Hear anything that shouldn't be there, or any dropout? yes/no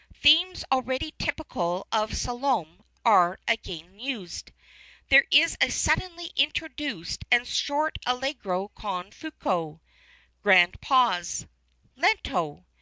no